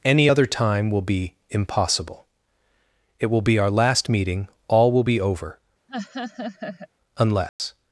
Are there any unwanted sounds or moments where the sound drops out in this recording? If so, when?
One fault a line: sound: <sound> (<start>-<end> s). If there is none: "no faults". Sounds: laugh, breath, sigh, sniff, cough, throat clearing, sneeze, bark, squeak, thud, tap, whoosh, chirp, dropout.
sound: laugh (5.9-6.9 s)
sound: dropout (7.5-7.6 s)